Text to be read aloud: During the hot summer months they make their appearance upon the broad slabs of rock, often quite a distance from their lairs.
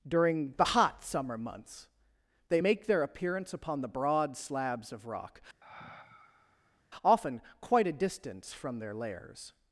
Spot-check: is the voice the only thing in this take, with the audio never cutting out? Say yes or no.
no